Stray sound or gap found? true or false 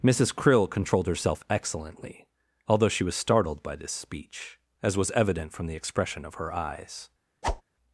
true